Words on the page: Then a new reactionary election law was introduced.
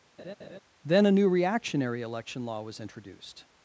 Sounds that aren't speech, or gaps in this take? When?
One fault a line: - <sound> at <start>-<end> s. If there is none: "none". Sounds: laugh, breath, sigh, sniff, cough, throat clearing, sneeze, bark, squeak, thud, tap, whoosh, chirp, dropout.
- laugh at 0.2-0.6 s